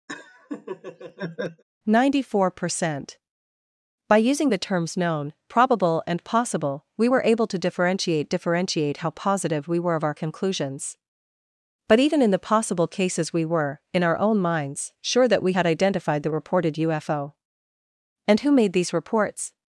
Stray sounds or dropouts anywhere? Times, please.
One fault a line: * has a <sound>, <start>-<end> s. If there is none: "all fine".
* has a laugh, 0.1-1.6 s